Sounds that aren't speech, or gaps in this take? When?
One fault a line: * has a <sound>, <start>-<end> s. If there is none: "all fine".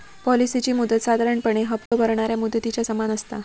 * has a dropout, 1.9-1.9 s